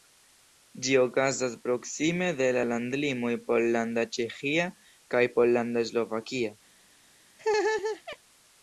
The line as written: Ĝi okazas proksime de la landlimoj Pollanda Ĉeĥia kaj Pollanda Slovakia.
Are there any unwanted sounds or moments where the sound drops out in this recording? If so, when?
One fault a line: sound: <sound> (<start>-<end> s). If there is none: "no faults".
sound: laugh (7.4-8.2 s)